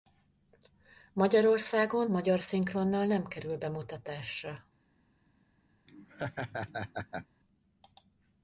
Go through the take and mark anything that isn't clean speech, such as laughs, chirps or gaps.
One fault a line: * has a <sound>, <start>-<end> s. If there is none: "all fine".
* has a laugh, 5.9-7.3 s